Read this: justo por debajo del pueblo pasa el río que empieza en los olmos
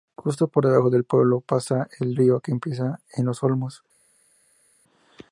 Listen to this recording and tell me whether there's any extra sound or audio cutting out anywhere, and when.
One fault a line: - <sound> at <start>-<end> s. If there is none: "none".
none